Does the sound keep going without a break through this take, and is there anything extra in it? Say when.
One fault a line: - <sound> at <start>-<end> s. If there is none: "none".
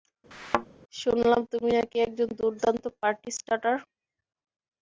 - thud at 0.3-0.7 s